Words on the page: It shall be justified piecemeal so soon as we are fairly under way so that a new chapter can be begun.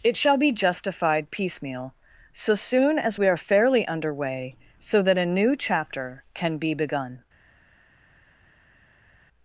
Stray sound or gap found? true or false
false